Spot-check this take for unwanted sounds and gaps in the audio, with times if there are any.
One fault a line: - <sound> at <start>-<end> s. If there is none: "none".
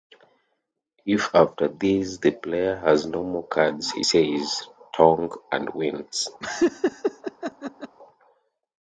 - laugh at 6.4-8.0 s